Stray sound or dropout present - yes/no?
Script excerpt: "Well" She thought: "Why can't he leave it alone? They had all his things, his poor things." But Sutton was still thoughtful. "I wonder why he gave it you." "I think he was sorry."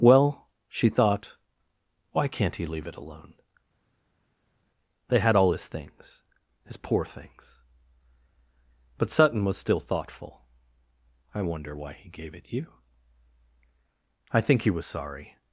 no